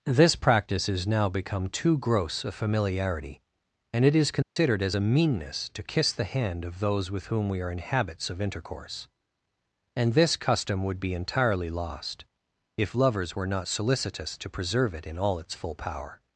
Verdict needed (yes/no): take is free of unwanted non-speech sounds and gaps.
no